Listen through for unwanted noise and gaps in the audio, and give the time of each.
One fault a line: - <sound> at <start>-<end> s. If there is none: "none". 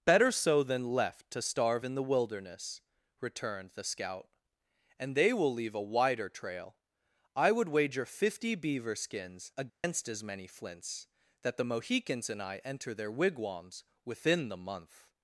- dropout at 9.7-9.8 s